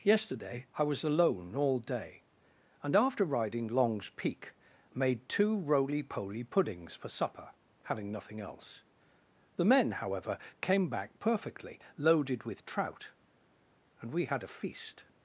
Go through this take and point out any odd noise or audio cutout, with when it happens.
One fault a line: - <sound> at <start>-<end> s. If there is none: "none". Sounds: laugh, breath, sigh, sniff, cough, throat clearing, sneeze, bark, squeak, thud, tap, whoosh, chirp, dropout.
none